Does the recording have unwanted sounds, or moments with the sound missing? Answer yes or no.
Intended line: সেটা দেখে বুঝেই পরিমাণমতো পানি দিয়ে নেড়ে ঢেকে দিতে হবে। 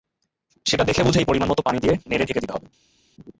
no